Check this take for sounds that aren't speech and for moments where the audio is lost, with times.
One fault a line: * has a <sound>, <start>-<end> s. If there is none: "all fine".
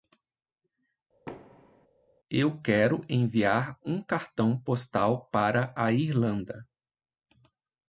* has a thud, 1.3-1.9 s